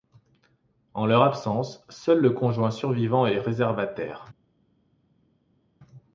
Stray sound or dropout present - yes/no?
no